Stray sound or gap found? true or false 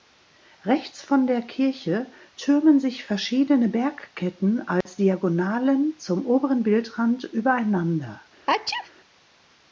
true